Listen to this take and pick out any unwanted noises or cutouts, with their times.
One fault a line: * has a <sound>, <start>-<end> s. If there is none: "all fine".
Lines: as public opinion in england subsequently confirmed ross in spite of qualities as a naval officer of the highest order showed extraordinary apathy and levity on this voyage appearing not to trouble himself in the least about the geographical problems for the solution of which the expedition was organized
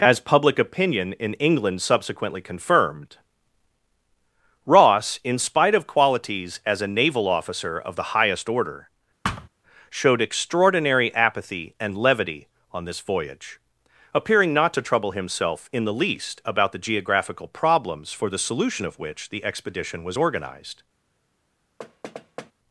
* has a thud, 9.2-9.5 s
* has a thud, 21.8-22.5 s